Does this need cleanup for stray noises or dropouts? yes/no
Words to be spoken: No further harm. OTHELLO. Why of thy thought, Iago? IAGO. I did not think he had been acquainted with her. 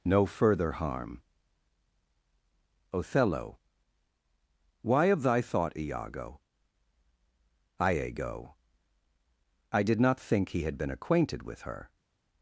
no